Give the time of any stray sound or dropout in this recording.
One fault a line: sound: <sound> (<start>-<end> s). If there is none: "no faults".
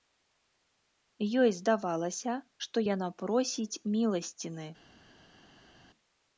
no faults